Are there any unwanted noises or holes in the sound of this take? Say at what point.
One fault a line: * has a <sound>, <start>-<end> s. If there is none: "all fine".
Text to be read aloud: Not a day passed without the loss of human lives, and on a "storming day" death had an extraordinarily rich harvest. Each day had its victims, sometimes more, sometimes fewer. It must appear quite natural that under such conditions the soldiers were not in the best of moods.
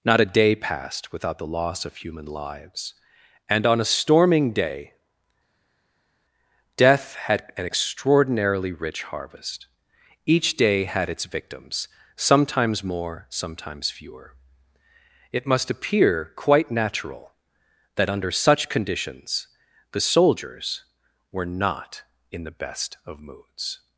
all fine